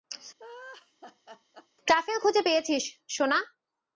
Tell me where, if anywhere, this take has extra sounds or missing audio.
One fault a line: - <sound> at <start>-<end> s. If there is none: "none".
- laugh at 0.4-1.7 s